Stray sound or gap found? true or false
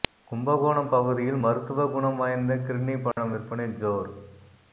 true